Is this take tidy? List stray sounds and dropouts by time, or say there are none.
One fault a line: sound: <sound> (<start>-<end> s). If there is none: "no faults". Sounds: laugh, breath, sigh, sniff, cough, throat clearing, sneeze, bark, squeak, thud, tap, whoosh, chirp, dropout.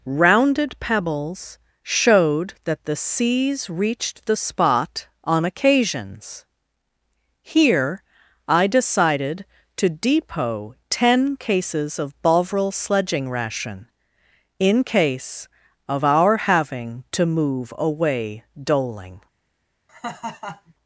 sound: laugh (19.9-20.7 s)